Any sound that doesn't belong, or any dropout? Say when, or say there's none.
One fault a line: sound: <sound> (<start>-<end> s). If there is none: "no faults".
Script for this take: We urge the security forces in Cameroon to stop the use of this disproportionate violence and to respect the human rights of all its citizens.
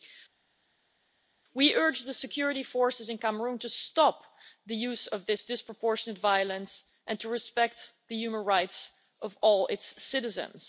no faults